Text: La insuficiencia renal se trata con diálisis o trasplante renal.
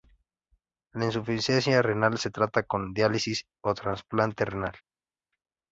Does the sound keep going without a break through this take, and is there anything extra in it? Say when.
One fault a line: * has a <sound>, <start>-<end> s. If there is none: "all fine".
all fine